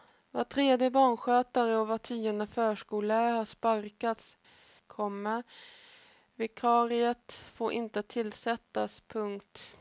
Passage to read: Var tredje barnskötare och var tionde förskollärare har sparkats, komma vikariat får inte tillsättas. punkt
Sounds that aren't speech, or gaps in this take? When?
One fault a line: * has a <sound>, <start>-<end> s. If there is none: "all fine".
all fine